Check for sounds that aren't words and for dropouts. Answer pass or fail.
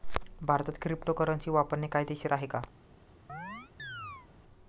fail